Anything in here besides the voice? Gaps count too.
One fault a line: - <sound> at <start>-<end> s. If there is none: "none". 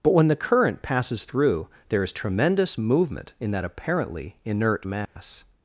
- dropout at 5.1-5.2 s